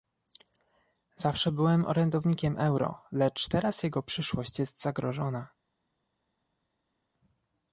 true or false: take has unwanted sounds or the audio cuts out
false